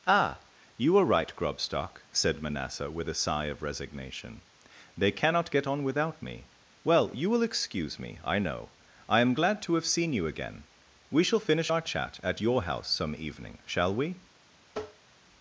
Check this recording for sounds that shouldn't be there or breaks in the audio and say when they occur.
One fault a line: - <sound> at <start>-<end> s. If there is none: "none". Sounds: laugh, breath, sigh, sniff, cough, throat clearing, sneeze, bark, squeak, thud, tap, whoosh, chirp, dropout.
- tap at 14.7-15.1 s